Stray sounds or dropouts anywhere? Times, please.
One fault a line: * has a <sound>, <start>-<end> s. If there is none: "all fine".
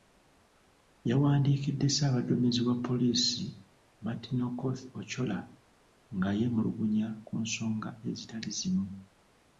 all fine